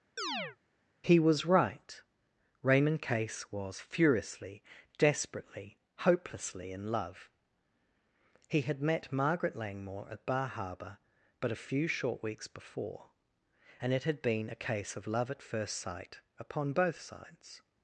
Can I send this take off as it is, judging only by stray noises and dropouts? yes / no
no